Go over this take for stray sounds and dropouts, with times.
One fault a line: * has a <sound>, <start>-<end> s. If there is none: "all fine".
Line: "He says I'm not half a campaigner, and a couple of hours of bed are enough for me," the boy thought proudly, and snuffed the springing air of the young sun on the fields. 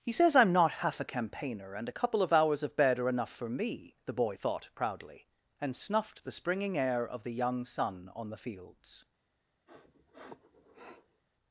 * has a sniff, 9.7-11.2 s